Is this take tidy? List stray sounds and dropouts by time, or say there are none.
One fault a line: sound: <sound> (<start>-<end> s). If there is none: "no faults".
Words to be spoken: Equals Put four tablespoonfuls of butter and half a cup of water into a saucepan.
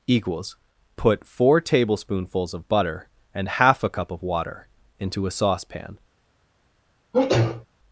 sound: sneeze (7.1-7.7 s)